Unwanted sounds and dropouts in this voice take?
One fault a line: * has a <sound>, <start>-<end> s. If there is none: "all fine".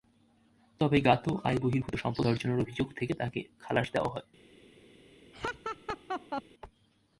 * has a laugh, 5.3-6.4 s